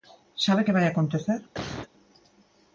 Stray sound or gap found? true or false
true